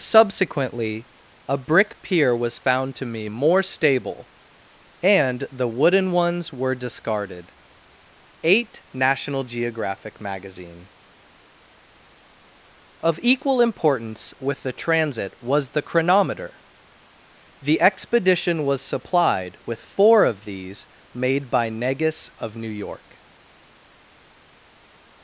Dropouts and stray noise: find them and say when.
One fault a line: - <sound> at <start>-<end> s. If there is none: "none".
none